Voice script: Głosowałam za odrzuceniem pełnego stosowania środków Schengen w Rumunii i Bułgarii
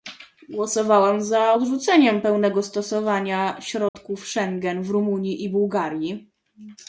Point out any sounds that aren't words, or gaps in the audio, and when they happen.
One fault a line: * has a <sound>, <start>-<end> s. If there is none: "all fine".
* has a dropout, 3.9-3.9 s